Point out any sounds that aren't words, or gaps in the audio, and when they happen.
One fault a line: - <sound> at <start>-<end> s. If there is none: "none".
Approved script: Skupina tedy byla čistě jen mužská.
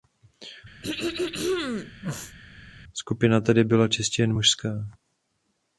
- throat clearing at 0.8-2.4 s